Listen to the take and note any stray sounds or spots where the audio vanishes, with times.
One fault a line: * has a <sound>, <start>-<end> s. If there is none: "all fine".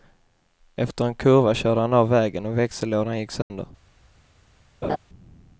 * has a dropout, 3.4-3.5 s
* has a laugh, 4.8-5.0 s